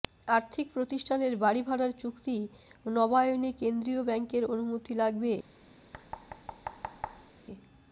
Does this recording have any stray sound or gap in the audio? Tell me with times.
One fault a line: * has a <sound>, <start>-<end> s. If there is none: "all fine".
* has a thud, 5.9-7.3 s